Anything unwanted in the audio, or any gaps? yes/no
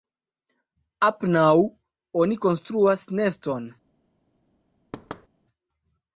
yes